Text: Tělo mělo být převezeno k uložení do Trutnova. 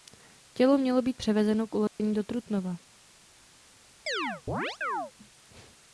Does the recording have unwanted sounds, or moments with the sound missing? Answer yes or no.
yes